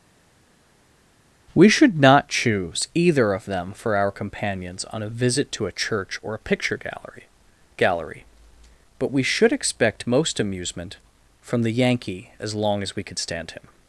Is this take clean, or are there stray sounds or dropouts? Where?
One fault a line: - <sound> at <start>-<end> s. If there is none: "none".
none